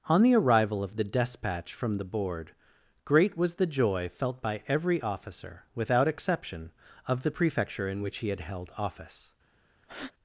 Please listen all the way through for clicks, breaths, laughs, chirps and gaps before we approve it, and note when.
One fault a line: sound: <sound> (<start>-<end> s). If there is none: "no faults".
sound: breath (9.8-10.1 s)